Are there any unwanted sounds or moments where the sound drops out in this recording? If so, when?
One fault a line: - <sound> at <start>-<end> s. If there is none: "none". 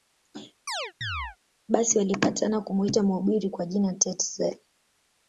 - chirp at 0.7-1.4 s